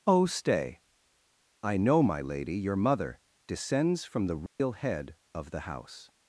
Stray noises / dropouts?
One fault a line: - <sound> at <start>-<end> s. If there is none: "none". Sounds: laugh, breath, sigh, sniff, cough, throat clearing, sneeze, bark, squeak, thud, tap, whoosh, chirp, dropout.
- dropout at 4.5-4.6 s